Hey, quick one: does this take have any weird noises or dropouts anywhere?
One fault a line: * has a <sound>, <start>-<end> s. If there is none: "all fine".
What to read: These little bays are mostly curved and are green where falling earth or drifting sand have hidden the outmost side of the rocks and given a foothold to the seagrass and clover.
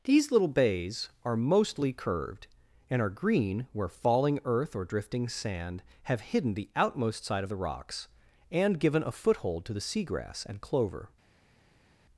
all fine